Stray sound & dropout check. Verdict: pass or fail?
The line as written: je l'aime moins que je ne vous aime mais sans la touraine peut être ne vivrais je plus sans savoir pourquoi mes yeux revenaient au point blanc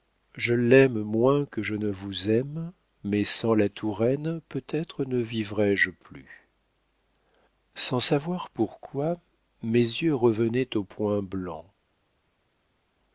pass